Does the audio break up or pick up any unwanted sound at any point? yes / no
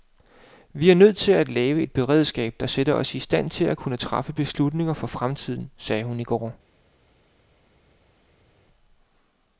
no